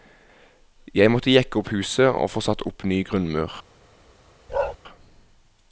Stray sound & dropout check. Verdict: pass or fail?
fail